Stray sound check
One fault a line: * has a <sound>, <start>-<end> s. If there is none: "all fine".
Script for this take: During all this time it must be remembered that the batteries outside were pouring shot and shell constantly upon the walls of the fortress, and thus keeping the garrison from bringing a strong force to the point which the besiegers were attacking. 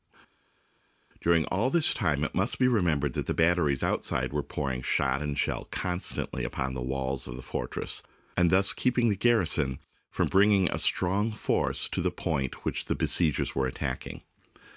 all fine